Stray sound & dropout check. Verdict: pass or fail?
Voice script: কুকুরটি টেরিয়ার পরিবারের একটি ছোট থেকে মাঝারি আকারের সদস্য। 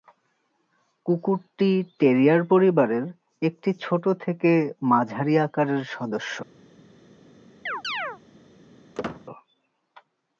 fail